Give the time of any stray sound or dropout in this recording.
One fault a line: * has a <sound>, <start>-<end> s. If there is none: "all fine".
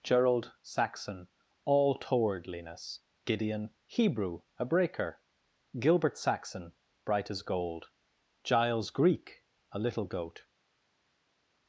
all fine